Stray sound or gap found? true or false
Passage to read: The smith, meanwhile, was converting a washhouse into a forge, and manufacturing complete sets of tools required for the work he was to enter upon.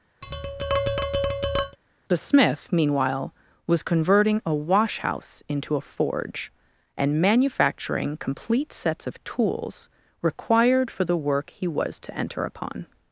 true